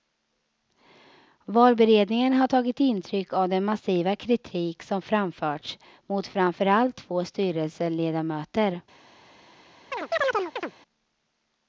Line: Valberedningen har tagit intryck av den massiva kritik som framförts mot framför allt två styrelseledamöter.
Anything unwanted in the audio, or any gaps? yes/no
yes